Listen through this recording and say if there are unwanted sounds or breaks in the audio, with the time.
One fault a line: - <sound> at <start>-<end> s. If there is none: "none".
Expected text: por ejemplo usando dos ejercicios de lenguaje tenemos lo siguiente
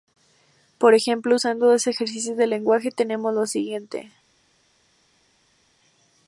none